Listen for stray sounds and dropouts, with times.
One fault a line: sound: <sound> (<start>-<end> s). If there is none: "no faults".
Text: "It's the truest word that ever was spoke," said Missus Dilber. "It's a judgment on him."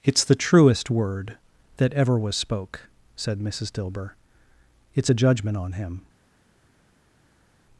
no faults